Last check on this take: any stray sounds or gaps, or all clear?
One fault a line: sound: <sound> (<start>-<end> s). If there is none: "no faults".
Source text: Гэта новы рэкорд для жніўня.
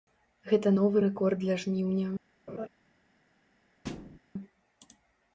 sound: laugh (2.5-2.7 s)
sound: thud (3.8-4.2 s)